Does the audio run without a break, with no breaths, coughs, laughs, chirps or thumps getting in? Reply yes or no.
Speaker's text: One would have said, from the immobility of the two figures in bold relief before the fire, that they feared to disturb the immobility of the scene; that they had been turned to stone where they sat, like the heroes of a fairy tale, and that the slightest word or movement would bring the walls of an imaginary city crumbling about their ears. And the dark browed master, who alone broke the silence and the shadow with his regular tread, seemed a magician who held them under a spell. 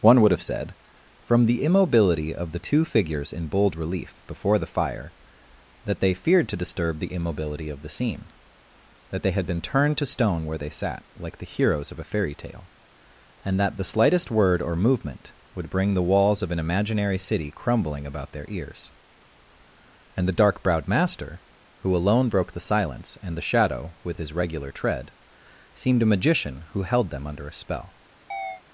no